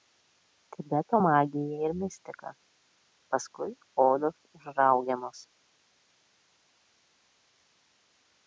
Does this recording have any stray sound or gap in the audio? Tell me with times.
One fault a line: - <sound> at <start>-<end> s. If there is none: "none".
none